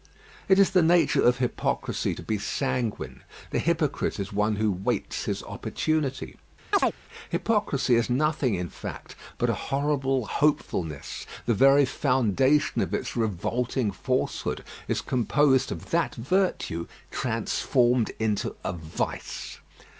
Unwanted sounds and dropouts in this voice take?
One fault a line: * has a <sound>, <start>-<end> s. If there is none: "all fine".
* has a chirp, 6.7-6.9 s